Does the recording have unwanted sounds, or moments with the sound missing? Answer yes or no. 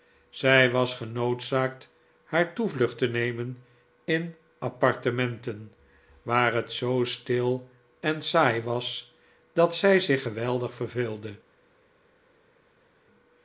no